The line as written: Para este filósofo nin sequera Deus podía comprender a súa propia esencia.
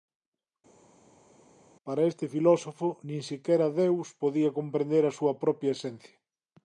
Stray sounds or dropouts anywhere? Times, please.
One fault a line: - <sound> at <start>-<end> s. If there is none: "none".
none